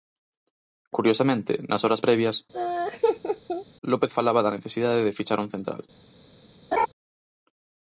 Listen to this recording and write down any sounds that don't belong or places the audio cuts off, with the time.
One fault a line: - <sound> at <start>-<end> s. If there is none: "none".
- laugh at 2.5-3.7 s
- laugh at 6.7-6.9 s